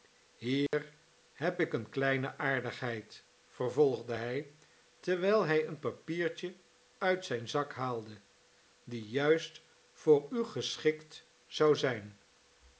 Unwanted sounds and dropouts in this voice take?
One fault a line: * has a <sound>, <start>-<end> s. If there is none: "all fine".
* has a dropout, 0.7-0.7 s